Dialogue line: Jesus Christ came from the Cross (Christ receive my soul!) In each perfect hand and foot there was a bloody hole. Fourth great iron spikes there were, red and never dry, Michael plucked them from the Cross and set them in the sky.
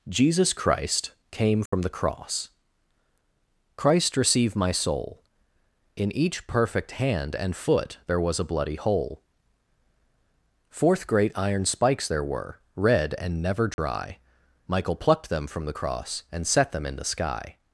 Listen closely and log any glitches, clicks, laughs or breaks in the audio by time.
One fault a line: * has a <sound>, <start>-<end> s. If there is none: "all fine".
* has a dropout, 1.7-1.7 s
* has a dropout, 13.7-13.8 s